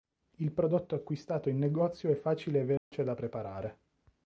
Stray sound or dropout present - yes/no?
yes